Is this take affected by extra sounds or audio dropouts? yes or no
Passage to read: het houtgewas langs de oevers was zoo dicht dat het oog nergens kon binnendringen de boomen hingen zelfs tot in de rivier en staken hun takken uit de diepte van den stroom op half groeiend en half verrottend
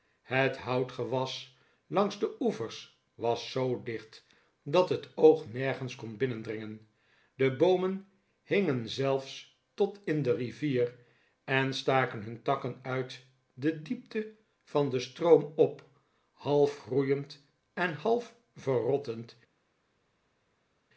no